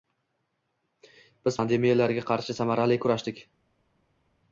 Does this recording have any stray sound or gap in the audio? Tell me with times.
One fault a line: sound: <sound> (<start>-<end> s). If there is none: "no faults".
no faults